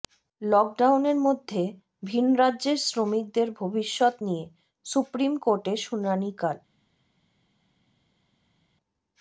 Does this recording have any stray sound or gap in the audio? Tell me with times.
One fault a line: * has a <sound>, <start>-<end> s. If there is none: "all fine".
all fine